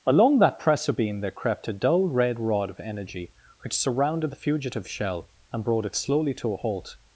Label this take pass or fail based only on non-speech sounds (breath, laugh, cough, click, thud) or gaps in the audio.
pass